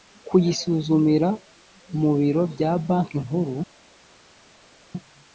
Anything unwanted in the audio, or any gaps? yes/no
no